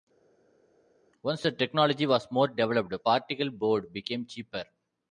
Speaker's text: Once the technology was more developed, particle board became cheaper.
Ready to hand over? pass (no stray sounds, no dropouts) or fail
pass